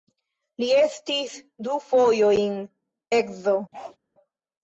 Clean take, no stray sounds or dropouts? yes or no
no